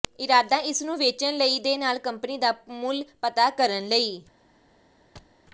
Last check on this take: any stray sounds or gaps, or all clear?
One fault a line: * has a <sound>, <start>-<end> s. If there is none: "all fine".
* has a thud, 5.2-5.4 s